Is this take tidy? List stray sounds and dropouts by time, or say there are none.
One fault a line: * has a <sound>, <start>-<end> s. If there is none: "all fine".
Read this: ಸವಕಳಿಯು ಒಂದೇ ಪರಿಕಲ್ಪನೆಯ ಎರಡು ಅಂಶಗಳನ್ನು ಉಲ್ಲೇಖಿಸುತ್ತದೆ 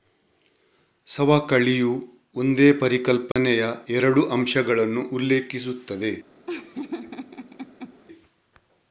* has a dropout, 3.3-3.4 s
* has a laugh, 6.5-8.0 s